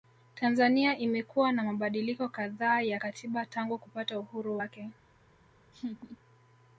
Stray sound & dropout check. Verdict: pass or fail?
fail